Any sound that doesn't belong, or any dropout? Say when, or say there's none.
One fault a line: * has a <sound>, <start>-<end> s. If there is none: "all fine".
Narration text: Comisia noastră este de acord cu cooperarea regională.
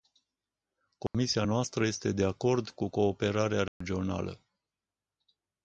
* has a dropout, 1.1-1.1 s
* has a dropout, 3.7-3.8 s